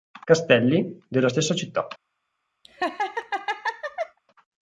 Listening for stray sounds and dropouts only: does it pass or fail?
fail